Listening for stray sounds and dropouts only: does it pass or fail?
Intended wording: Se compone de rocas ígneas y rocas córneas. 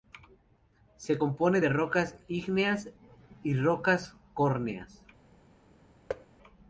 fail